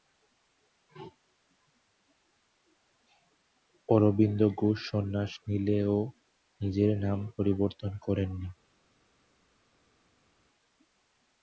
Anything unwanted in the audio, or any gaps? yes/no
no